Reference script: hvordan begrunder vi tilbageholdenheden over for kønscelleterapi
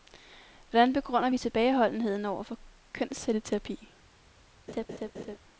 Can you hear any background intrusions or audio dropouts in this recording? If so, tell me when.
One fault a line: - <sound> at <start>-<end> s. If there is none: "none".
- laugh at 4.7-5.4 s